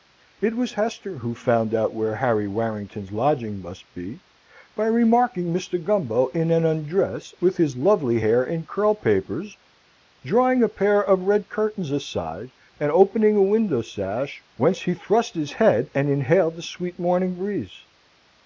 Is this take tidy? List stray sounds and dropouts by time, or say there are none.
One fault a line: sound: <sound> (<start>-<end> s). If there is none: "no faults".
no faults